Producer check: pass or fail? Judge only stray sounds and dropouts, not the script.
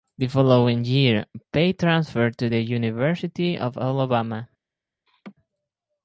fail